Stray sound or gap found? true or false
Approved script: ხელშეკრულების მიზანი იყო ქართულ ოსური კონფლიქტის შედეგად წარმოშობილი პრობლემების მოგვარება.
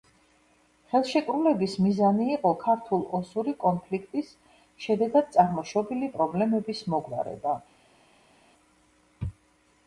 false